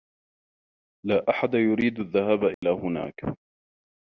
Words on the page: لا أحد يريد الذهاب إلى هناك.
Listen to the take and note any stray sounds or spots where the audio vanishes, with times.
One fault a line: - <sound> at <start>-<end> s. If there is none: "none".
- dropout at 2.5-2.6 s